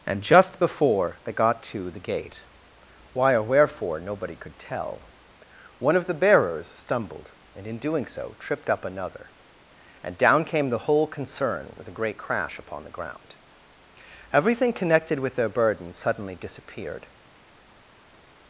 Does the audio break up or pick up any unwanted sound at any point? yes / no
no